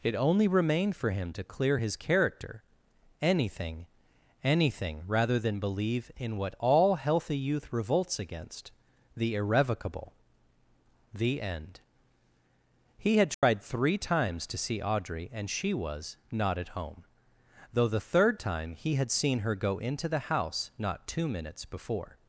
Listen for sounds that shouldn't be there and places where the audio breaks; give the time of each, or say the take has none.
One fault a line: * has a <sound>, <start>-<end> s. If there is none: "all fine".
* has a dropout, 13.3-13.4 s